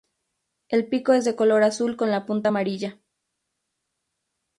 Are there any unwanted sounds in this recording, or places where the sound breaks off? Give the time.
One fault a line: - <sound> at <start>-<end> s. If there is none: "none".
none